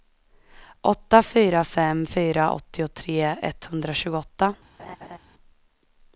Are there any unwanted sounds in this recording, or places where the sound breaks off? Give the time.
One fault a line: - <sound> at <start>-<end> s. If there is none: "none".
- laugh at 4.8-5.2 s